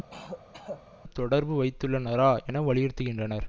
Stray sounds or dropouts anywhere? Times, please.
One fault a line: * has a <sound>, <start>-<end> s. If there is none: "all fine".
* has a throat clearing, 0.1-0.8 s